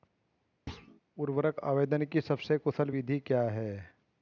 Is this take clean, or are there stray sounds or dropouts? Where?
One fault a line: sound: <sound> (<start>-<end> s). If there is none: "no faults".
sound: thud (0.7-1.0 s)